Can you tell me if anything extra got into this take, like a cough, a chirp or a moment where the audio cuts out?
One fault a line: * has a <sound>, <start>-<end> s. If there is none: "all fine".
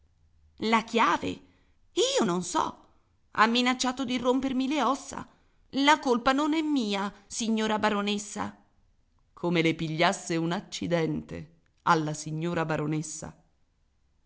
all fine